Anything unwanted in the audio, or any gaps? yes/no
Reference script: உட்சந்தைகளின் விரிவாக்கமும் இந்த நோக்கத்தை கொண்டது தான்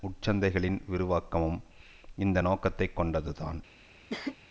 yes